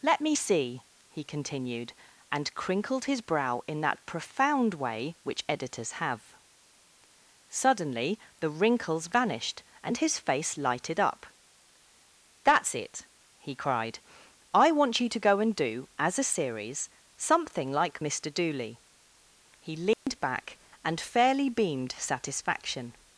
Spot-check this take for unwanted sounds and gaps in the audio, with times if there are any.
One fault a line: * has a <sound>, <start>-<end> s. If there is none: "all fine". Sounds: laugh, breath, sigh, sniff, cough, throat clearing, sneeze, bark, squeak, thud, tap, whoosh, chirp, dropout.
* has a dropout, 19.9-20.1 s